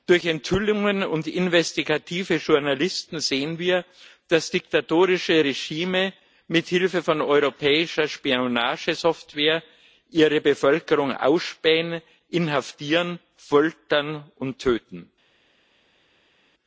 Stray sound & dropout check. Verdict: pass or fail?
pass